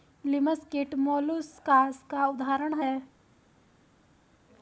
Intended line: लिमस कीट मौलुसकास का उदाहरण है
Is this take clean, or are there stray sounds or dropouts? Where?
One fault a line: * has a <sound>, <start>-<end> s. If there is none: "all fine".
all fine